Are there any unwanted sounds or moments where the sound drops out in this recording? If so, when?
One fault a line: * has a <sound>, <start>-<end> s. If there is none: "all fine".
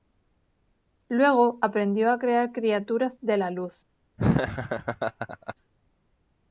* has a laugh, 4.2-5.5 s